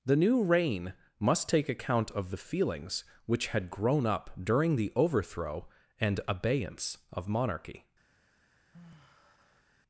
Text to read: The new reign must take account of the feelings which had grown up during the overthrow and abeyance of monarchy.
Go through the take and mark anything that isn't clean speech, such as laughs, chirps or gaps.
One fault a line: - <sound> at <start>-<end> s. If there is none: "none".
- sigh at 8.7-9.8 s